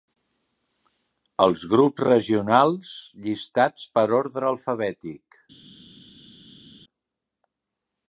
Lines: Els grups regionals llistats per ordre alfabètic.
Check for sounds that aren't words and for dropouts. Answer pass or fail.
pass